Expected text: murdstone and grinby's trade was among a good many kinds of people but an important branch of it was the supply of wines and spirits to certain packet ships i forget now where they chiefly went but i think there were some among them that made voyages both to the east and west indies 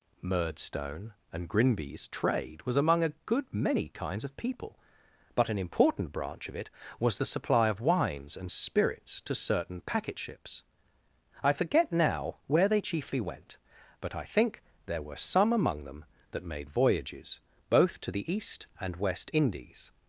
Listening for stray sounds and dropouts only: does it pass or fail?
pass